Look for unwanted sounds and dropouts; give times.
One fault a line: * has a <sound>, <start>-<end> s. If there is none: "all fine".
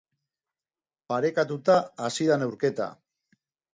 all fine